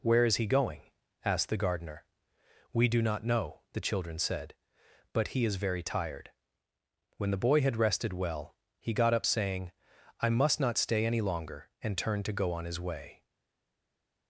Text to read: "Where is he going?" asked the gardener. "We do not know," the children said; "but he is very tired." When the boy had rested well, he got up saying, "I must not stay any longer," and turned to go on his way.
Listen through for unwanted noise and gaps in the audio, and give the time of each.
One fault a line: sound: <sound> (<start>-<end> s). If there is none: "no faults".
no faults